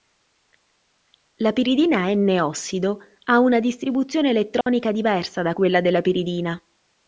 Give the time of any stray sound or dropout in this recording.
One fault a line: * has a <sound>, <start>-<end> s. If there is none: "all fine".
* has a dropout, 4.6-4.7 s